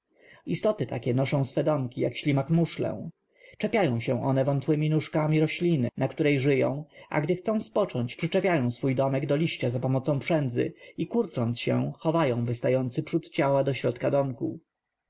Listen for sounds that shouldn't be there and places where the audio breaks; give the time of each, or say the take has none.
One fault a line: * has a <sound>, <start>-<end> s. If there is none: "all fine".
all fine